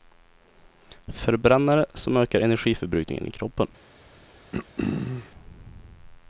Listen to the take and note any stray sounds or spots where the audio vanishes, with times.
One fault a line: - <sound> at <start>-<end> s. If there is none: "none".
- throat clearing at 4.5-5.3 s